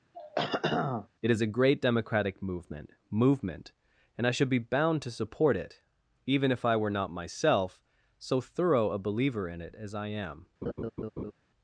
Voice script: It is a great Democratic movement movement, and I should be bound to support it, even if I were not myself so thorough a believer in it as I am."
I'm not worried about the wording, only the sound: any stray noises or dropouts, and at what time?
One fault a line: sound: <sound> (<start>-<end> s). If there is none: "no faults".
sound: throat clearing (0.1-1.1 s)
sound: laugh (10.6-11.3 s)